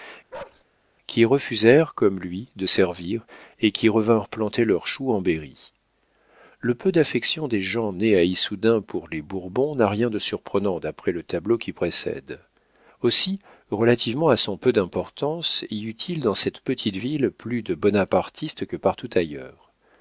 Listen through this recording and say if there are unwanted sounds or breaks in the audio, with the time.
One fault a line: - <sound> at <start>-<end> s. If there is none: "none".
- bark at 0.3-0.6 s